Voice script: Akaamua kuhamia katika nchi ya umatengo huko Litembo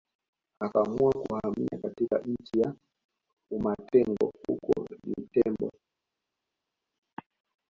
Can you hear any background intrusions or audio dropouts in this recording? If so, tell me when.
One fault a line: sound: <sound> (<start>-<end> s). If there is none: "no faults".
no faults